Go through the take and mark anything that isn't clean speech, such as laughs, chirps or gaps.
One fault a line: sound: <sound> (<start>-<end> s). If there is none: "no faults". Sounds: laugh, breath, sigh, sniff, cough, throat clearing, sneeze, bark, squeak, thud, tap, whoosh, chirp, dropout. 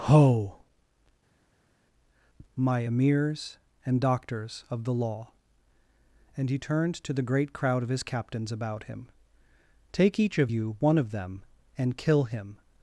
no faults